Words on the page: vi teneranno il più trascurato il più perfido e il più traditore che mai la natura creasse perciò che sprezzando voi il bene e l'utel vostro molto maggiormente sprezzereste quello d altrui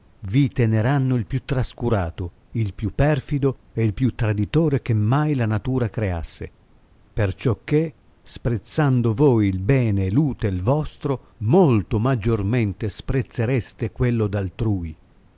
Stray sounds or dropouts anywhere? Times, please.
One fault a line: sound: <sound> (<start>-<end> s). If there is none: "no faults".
no faults